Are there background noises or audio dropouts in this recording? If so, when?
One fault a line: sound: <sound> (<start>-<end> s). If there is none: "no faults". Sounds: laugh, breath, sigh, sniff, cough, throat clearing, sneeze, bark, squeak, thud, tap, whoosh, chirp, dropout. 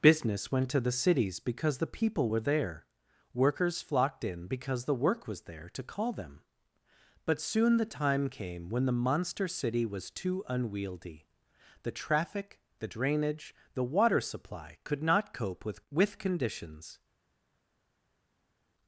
no faults